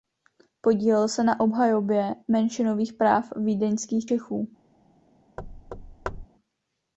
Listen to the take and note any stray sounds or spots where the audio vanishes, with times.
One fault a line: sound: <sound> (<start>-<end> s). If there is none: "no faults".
sound: thud (5.4-6.3 s)